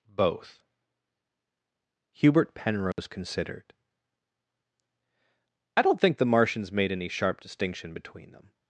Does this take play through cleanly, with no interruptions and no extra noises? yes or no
no